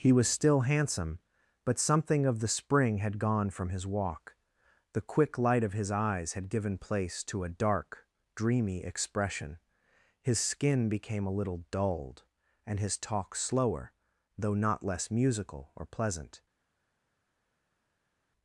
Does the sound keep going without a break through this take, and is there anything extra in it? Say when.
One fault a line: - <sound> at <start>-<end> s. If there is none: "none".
none